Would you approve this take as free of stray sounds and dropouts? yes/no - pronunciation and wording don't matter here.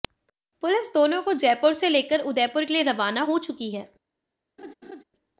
no